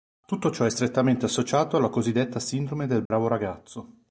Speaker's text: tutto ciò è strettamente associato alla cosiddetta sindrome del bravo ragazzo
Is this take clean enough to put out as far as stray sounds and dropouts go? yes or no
no